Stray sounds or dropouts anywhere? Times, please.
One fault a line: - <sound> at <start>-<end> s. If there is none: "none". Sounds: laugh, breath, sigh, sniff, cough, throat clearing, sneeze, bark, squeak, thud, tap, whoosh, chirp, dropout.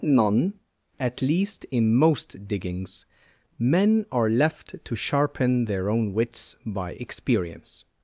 none